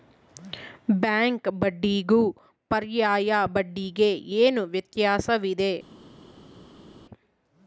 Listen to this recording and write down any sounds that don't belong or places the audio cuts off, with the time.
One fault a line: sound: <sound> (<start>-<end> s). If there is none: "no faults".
no faults